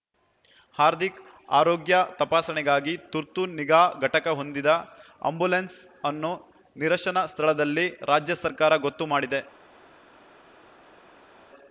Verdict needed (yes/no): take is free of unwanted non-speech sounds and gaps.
yes